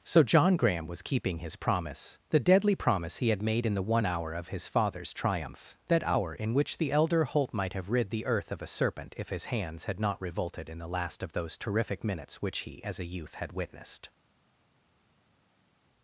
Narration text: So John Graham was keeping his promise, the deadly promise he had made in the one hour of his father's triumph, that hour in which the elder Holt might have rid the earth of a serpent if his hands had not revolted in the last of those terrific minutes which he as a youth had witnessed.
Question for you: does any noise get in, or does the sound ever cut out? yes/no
no